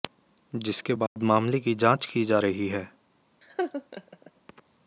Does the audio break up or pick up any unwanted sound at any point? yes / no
yes